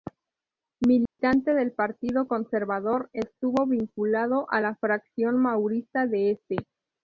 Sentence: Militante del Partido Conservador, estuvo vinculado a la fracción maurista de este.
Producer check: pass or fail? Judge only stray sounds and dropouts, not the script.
fail